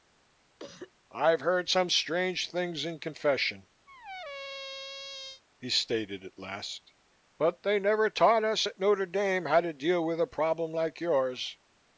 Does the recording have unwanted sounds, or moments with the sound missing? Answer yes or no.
yes